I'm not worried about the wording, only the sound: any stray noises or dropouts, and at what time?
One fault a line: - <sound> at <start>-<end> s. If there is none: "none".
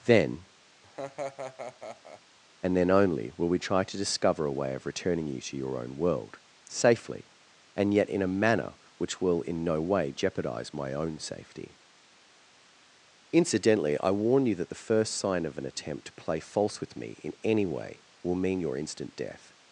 - laugh at 0.8-2.2 s